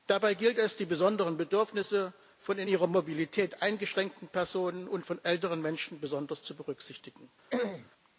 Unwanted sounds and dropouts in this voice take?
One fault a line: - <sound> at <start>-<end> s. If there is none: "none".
- throat clearing at 7.5-7.9 s